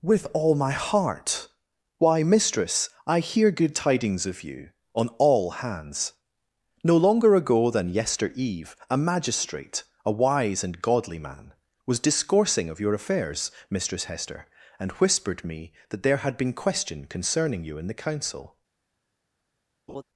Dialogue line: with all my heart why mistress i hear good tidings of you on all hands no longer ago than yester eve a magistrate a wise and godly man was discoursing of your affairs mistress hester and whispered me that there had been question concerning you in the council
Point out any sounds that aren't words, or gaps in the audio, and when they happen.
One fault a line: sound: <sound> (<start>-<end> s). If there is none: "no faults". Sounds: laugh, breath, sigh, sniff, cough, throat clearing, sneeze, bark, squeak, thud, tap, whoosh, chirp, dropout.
sound: laugh (19.9-20.0 s)